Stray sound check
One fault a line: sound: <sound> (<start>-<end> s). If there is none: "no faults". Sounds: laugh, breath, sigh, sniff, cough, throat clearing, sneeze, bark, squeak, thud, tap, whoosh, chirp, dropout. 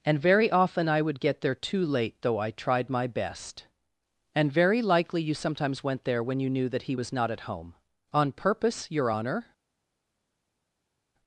no faults